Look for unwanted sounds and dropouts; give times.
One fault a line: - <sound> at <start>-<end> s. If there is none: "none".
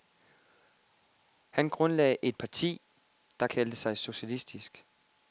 none